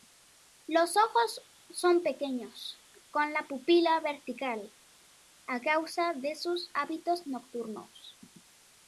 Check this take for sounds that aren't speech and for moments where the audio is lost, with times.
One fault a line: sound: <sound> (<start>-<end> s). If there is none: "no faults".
no faults